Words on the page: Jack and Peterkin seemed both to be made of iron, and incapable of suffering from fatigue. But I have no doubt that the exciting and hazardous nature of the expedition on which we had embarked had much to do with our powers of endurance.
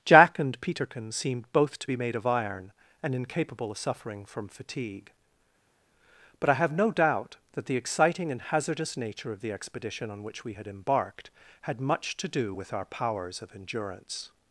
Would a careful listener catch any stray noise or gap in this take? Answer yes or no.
no